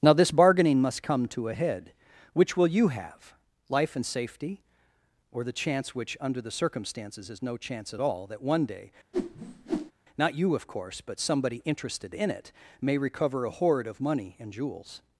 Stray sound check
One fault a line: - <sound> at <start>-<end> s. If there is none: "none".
- whoosh at 9.1-9.9 s